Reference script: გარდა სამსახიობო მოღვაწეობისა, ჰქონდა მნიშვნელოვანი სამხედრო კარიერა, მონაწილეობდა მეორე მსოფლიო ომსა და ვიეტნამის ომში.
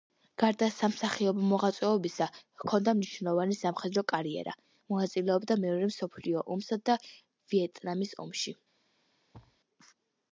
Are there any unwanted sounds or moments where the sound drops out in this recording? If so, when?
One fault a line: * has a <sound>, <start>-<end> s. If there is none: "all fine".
* has a thud, 9.3-9.6 s